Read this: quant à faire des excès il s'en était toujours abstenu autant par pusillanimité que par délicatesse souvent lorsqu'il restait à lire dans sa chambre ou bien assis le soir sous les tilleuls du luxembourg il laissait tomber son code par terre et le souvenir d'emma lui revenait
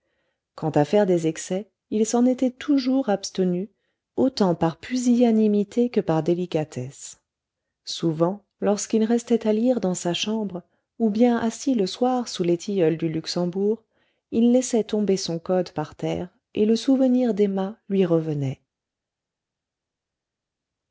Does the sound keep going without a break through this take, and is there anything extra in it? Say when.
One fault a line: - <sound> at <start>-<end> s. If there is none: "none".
none